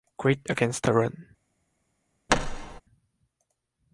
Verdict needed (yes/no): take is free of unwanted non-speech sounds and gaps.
no